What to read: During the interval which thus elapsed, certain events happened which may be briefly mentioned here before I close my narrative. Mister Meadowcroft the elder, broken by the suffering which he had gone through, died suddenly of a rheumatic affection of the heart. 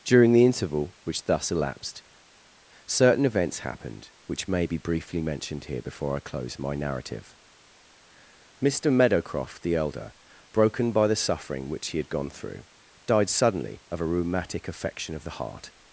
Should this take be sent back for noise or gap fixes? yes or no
no